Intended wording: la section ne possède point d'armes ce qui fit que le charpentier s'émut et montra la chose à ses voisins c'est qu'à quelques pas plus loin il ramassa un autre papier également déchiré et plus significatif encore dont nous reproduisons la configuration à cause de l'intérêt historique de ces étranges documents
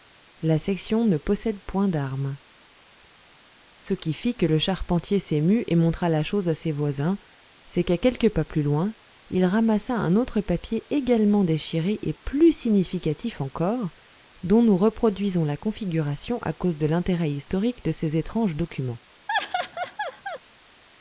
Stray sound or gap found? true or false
true